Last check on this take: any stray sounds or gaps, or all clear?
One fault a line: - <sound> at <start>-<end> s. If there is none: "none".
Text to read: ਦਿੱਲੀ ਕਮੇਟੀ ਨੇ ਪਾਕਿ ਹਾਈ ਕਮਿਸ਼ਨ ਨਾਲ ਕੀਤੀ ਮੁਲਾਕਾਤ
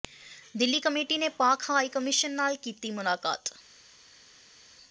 none